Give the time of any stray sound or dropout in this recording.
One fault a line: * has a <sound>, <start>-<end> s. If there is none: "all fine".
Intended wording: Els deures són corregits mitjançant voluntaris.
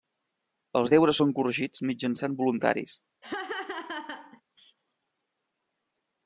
* has a laugh, 3.2-4.4 s